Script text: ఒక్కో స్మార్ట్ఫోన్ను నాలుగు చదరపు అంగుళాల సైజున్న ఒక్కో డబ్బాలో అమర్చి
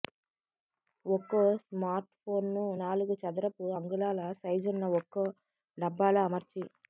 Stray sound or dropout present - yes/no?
no